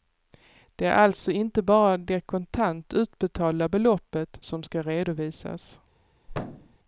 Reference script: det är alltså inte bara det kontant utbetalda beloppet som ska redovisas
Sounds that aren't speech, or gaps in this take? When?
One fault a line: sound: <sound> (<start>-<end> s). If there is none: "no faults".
sound: thud (6.3-6.8 s)